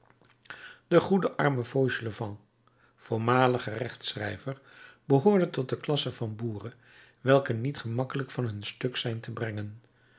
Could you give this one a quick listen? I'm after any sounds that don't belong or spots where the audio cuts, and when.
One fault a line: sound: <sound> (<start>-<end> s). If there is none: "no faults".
no faults